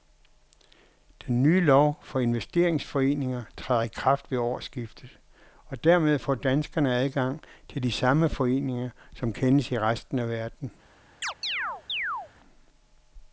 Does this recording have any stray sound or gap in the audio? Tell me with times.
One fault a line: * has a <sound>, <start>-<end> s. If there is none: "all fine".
* has a chirp, 11.2-12.3 s